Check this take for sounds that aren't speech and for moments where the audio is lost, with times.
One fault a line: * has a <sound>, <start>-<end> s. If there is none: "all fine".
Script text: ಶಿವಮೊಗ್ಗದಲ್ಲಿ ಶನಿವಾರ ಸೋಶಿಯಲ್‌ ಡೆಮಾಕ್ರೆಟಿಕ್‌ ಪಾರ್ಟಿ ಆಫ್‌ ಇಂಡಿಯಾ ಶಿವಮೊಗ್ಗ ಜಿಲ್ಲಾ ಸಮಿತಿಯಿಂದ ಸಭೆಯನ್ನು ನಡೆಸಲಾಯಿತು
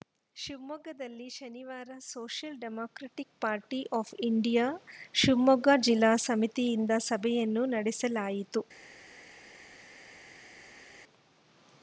all fine